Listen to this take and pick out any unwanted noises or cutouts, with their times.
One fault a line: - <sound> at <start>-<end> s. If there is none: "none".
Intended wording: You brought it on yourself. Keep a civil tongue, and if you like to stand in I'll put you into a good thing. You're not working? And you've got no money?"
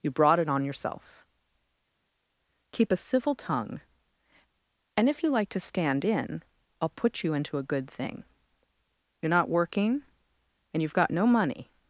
none